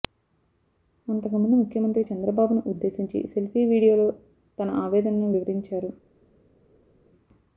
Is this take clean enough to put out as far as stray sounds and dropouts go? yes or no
yes